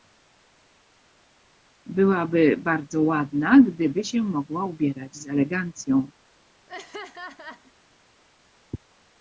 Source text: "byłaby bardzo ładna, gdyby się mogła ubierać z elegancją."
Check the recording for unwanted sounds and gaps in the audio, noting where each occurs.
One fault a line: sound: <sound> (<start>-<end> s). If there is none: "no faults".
sound: laugh (6.7-7.7 s)